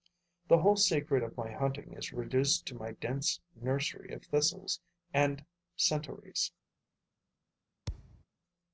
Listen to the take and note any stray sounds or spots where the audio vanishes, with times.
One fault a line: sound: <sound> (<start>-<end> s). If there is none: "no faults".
sound: thud (7.9-8.2 s)